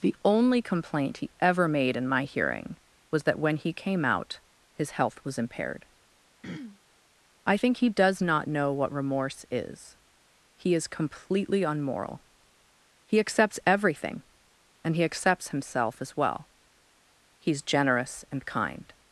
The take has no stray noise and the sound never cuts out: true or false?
false